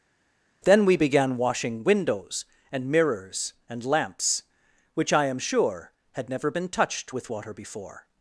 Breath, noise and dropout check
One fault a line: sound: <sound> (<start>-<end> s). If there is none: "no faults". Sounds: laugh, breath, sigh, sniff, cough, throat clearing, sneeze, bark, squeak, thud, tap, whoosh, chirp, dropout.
no faults